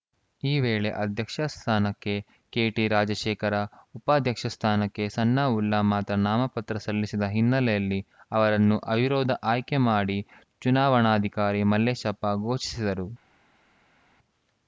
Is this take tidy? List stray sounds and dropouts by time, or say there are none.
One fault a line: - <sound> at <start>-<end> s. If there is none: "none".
none